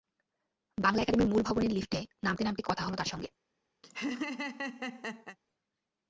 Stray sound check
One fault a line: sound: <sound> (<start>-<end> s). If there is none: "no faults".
sound: laugh (3.8-5.4 s)